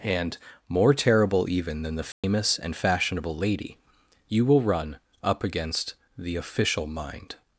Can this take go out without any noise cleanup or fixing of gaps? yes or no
no